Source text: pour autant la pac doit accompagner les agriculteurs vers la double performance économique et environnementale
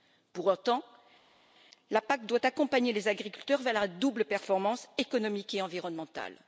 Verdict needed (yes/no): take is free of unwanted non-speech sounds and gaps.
yes